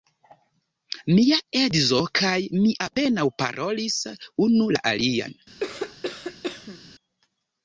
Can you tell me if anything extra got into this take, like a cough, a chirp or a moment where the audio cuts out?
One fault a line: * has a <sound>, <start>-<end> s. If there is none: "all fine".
* has a cough, 5.6-6.9 s